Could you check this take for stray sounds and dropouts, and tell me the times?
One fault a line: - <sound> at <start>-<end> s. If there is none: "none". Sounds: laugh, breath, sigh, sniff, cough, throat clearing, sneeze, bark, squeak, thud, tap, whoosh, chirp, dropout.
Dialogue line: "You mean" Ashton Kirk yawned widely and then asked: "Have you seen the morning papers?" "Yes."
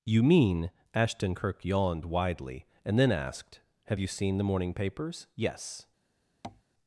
- tap at 6.4-6.6 s